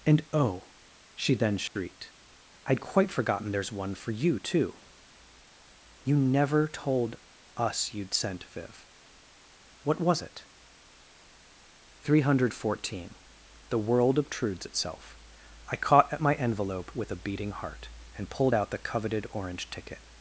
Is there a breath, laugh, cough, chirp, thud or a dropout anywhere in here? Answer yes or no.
yes